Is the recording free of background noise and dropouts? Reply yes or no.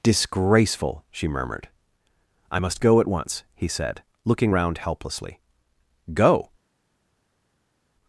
yes